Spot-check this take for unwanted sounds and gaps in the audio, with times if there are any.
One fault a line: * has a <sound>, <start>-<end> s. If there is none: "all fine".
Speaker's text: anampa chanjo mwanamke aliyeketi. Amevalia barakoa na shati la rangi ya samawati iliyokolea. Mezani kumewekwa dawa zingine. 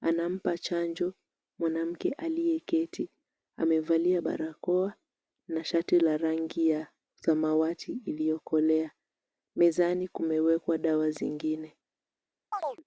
* has a chirp, 12.5-12.8 s